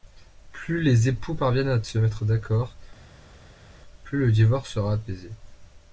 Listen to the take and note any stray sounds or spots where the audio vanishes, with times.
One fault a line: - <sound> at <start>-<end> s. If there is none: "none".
none